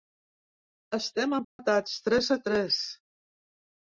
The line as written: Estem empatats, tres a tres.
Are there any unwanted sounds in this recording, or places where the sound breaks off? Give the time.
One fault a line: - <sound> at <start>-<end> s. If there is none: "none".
- dropout at 1.4-1.6 s